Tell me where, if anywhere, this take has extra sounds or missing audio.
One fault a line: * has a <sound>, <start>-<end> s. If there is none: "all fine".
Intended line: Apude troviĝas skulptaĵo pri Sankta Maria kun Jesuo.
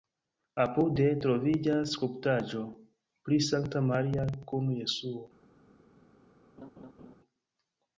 * has a laugh, 6.6-7.2 s